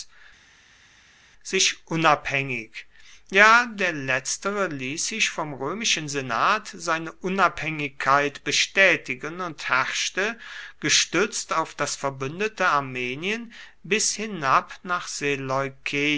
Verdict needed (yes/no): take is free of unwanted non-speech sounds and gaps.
yes